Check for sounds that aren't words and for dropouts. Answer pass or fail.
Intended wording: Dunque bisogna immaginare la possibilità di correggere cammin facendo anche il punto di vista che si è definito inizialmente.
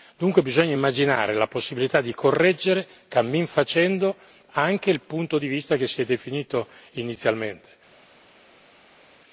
pass